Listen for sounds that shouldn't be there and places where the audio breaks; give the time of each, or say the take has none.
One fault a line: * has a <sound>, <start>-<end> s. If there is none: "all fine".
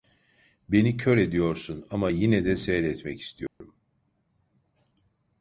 * has a dropout, 3.5-3.6 s